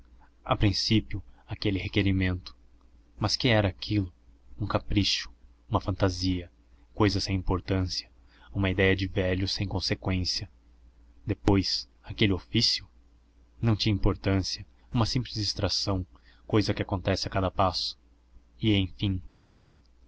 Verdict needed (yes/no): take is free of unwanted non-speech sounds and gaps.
yes